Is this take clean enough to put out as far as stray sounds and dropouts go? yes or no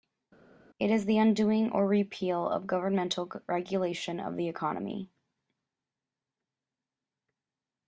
yes